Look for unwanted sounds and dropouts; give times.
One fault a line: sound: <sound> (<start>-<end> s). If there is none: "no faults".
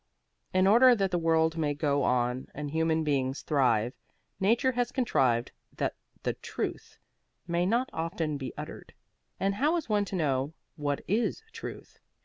no faults